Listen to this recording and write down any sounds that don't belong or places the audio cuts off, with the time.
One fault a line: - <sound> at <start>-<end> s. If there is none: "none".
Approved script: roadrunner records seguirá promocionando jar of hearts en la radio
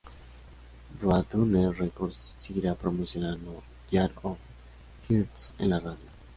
none